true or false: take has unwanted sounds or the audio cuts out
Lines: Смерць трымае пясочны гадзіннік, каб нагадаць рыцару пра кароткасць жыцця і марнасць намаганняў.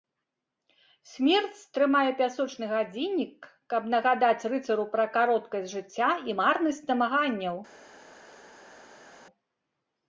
false